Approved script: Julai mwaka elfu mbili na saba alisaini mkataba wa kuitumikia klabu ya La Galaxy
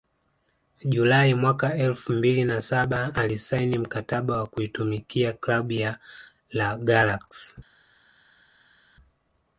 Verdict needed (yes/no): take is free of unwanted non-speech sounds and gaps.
yes